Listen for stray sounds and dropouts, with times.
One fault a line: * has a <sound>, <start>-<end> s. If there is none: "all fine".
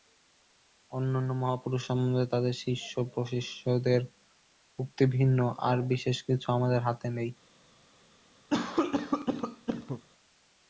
* has a cough, 8.5-10.0 s